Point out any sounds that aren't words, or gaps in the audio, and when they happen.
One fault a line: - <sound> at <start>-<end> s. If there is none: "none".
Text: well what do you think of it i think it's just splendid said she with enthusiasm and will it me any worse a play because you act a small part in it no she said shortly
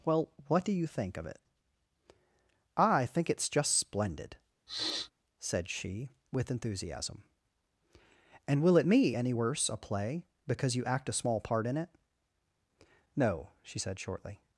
- sniff at 4.7-5.1 s